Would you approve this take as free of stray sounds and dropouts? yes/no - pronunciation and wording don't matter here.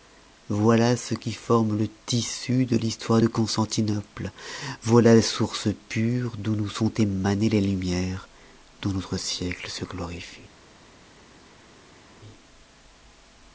yes